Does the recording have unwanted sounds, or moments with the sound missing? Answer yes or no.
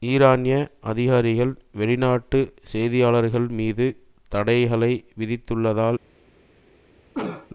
yes